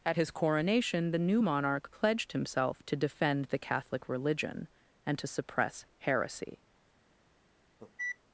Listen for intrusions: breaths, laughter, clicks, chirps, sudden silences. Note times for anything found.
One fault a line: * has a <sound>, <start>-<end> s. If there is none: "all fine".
* has a cough, 7.8-8.2 s